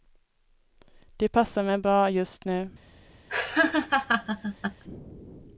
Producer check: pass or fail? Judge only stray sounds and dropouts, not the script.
fail